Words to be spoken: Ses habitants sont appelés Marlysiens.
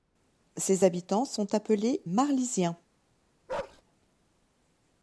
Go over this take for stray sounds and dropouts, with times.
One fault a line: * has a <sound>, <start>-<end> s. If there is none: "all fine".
* has a bark, 3.5-3.8 s